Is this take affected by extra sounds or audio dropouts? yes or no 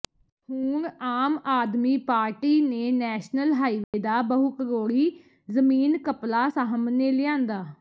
yes